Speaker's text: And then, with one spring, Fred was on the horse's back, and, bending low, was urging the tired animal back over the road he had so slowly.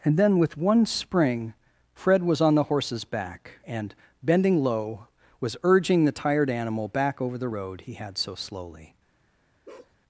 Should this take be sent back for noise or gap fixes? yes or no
yes